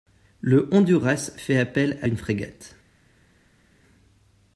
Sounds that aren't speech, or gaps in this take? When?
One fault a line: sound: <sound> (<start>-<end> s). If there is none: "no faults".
no faults